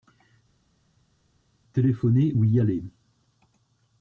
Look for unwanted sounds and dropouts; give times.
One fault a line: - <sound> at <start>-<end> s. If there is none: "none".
none